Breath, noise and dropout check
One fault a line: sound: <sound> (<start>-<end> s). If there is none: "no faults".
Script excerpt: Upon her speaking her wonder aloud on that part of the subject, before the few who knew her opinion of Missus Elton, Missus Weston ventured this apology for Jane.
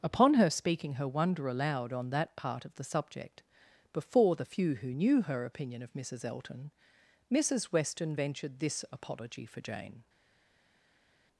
no faults